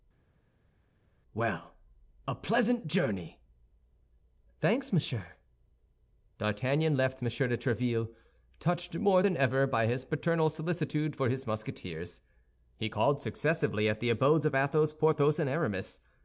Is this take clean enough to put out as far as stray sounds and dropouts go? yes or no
yes